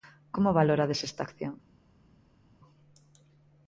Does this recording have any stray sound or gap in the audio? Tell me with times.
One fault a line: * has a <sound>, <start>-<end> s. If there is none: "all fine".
all fine